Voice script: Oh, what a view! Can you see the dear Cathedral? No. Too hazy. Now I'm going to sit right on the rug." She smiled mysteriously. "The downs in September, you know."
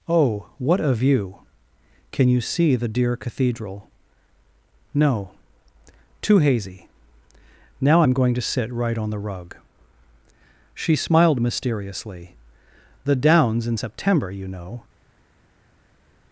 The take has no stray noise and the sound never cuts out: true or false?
true